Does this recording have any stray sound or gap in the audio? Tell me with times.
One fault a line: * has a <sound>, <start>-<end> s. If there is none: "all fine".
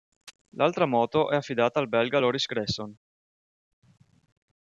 all fine